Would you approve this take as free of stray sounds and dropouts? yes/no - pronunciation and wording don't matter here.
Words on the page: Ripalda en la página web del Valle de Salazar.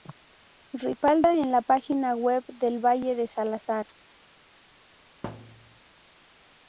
no